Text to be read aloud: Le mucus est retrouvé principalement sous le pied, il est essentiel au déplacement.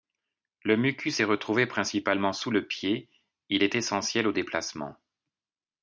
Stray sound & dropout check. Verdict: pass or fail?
pass